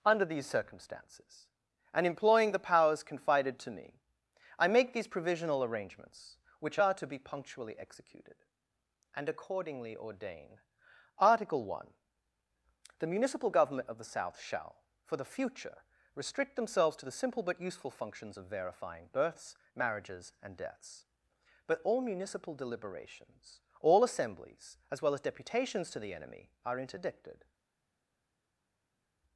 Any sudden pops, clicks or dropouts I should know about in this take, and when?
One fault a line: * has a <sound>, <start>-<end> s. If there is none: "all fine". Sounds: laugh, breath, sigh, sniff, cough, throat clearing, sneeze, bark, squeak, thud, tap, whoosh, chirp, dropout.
all fine